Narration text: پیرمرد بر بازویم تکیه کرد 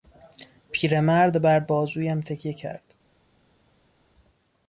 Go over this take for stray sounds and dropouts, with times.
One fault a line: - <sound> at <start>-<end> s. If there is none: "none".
none